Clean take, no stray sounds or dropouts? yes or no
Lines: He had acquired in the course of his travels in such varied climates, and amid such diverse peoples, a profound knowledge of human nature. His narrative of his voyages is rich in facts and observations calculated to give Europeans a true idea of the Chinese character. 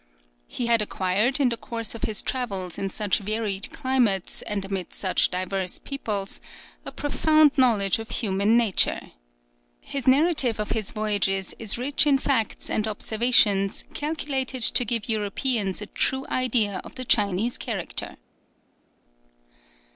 yes